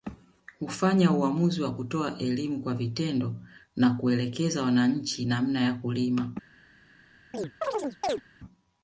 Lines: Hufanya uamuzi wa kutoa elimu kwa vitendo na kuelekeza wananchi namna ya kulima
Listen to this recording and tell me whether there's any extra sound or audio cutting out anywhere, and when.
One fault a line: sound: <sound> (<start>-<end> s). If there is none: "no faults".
sound: chirp (7.3-8.2 s)